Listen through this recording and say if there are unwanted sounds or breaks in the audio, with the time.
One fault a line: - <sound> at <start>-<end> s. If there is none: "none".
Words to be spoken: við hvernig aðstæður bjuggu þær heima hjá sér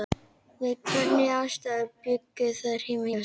none